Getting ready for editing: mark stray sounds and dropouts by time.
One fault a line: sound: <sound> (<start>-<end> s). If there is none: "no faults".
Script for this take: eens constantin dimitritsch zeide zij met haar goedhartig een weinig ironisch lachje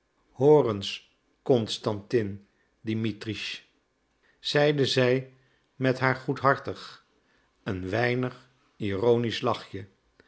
no faults